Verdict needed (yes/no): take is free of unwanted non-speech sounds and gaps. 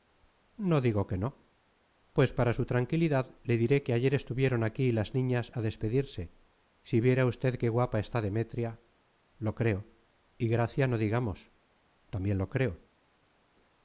yes